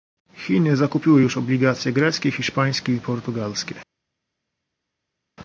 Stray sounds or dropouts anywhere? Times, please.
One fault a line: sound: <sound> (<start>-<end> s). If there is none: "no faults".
no faults